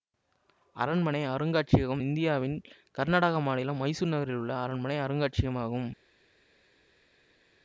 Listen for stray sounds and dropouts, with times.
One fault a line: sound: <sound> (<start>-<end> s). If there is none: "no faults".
no faults